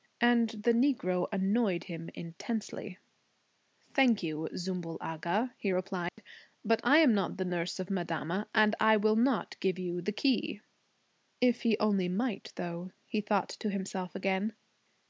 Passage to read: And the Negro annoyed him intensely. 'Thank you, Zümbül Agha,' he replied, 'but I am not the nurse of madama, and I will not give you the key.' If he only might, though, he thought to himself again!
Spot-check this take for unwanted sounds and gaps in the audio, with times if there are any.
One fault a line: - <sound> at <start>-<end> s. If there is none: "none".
- dropout at 6.1-6.2 s